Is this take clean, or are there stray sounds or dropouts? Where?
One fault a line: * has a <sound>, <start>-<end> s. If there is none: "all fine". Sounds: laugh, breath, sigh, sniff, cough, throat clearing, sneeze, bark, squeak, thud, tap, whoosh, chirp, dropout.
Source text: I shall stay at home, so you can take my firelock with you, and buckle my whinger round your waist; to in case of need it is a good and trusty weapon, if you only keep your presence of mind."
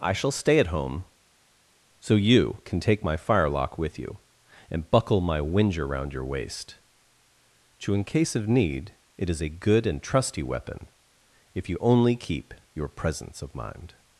all fine